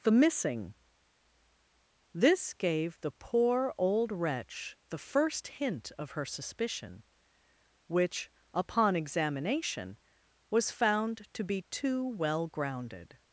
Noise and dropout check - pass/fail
pass